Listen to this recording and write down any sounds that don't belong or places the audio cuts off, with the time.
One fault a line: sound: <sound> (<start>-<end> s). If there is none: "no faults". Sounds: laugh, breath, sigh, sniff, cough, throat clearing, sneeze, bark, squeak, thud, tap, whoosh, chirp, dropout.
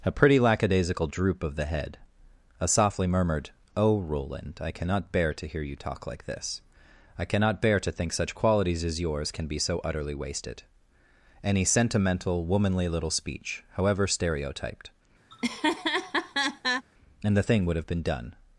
sound: laugh (15.3-16.9 s)